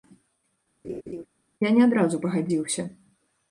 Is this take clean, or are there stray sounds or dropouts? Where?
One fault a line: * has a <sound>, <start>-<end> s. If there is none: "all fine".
* has a laugh, 0.8-1.3 s